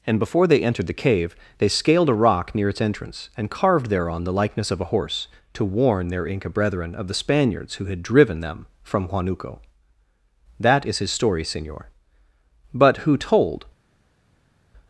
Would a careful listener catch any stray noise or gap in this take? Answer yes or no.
no